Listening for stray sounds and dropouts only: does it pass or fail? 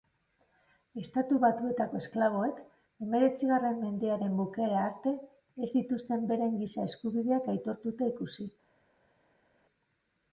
pass